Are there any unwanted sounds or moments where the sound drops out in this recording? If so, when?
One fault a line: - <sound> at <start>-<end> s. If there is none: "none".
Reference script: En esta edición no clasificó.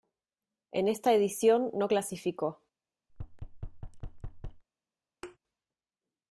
- thud at 3.1-4.6 s
- thud at 5.2-5.4 s